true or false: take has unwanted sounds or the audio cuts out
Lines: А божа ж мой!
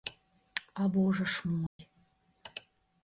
true